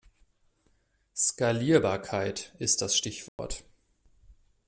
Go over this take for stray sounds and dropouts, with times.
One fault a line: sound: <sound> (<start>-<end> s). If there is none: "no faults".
sound: dropout (3.3-3.4 s)